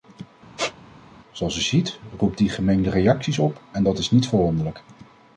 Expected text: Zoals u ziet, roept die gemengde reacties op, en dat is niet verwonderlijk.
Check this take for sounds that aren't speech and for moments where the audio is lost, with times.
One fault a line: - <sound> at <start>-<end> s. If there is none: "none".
- squeak at 0.6-0.8 s